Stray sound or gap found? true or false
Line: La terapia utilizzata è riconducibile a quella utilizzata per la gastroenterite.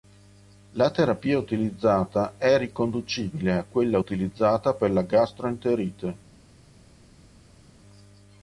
false